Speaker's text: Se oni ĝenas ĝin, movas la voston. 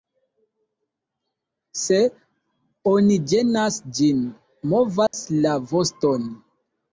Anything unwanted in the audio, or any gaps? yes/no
yes